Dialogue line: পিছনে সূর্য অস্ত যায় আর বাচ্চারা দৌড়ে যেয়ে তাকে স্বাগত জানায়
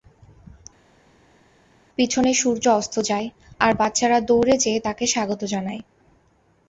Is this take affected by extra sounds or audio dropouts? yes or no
no